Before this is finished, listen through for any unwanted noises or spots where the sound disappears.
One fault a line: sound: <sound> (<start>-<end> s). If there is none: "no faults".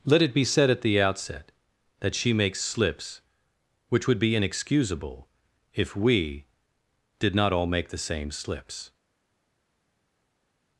no faults